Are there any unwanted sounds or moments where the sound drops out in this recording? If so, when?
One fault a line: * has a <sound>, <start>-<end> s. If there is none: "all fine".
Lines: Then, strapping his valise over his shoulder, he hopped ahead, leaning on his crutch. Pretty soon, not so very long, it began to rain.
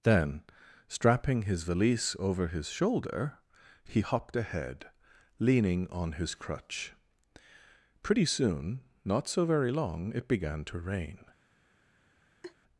* has a laugh, 12.4-12.6 s